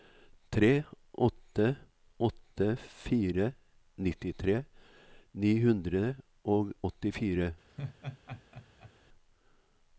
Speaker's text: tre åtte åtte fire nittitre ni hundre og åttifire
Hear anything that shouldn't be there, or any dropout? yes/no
yes